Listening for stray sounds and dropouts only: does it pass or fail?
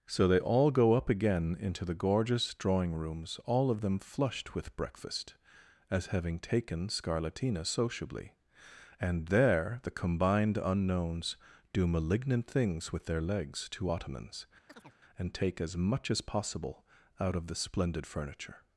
fail